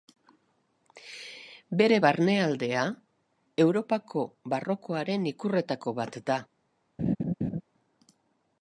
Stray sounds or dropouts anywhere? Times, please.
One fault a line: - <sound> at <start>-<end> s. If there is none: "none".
- laugh at 7.0-7.6 s